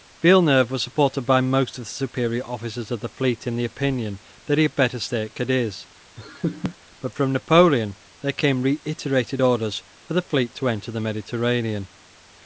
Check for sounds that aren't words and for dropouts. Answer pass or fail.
fail